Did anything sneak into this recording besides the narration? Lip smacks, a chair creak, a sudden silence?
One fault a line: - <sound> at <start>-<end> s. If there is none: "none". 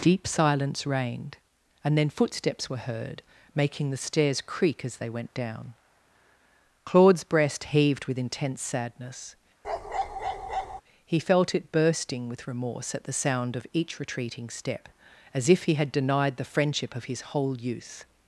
- bark at 9.6-10.8 s